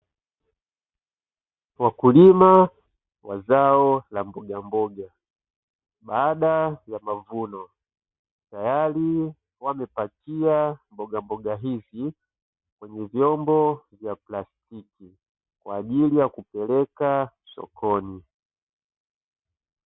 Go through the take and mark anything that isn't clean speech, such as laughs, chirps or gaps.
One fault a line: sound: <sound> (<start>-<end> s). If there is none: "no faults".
no faults